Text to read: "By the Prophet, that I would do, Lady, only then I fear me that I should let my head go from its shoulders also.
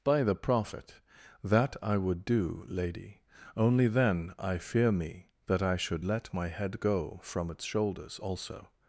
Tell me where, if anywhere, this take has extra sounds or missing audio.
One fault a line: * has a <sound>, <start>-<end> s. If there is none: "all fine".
all fine